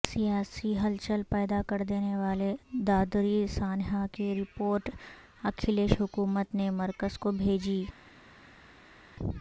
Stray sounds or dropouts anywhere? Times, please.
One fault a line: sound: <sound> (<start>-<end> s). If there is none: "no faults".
no faults